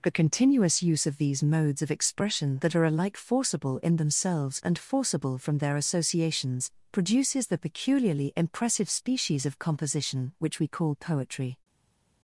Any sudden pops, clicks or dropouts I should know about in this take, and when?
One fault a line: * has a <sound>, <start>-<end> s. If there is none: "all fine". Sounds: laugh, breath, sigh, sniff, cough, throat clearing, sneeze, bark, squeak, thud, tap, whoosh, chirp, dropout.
all fine